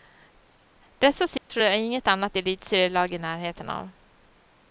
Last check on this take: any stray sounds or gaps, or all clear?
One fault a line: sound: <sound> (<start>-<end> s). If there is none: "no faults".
sound: dropout (1.4-1.5 s)